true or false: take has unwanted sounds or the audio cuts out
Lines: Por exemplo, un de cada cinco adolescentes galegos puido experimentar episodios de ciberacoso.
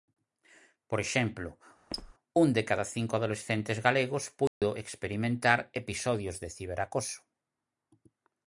true